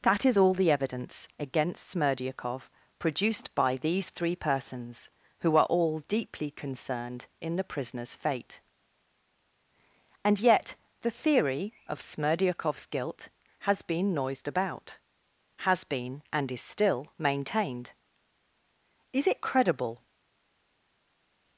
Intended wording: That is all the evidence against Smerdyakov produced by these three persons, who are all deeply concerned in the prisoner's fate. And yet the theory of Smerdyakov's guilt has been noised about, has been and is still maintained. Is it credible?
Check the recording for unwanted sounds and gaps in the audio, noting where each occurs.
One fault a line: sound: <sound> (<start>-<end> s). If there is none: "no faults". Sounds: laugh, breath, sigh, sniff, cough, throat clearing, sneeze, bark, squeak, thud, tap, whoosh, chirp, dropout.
no faults